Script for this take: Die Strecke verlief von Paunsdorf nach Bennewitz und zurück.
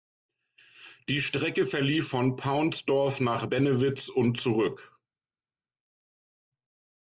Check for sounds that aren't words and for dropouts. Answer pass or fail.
pass